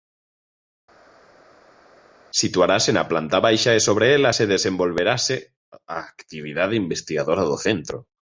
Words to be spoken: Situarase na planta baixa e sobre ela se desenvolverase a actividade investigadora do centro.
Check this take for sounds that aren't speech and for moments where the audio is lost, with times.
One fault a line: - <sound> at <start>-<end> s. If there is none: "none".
none